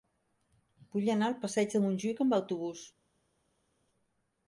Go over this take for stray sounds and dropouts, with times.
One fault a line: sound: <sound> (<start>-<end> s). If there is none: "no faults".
no faults